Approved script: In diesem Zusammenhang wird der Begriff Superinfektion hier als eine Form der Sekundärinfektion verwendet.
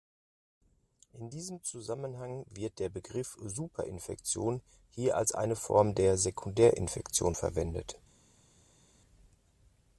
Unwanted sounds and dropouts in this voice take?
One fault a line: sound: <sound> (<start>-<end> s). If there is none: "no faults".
no faults